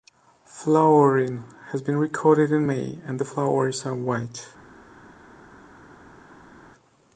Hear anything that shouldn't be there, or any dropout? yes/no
no